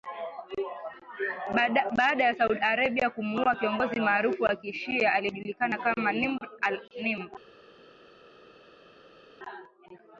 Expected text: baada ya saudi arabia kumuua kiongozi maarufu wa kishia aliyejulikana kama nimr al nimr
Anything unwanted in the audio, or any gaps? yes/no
no